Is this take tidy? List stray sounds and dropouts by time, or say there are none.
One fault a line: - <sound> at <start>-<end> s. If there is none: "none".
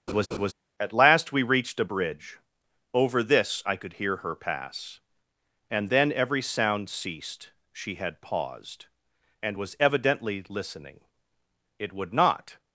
- laugh at 0.1-0.5 s